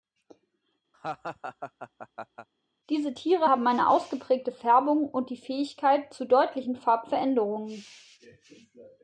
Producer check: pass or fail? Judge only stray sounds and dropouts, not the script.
fail